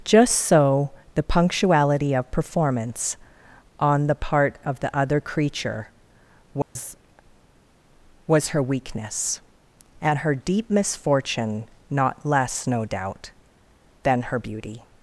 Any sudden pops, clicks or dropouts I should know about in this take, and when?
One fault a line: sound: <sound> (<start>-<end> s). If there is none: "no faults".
sound: dropout (6.6-6.8 s)